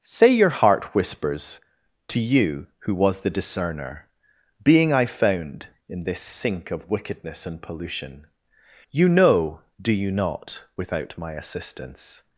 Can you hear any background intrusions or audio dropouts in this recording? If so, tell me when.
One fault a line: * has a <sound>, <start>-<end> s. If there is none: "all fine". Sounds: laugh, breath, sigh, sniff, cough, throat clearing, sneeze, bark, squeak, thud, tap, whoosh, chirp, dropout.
all fine